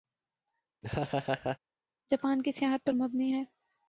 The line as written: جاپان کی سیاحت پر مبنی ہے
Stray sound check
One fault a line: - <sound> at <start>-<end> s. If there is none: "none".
- laugh at 0.8-1.6 s